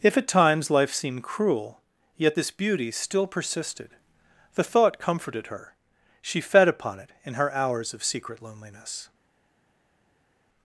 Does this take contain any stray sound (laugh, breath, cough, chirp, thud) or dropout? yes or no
no